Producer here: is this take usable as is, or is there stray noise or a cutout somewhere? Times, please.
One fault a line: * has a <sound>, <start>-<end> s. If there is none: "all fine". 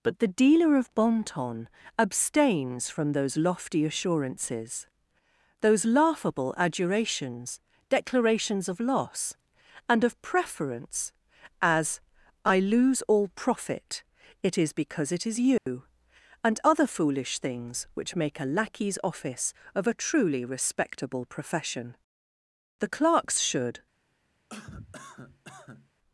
* has a dropout, 15.6-15.7 s
* has a cough, 24.5-25.9 s